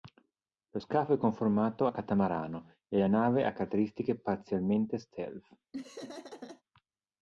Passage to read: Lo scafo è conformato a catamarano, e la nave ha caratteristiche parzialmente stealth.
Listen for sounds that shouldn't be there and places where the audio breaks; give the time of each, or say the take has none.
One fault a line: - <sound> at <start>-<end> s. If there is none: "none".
- laugh at 5.7-6.6 s